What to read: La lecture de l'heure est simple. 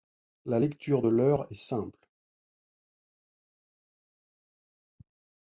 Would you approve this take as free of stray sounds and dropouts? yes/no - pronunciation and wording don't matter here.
yes